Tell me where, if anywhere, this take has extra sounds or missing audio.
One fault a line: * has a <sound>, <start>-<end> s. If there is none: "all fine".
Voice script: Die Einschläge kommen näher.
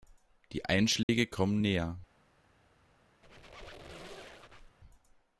* has a dropout, 1.0-1.1 s
* has a squeak, 3.2-4.8 s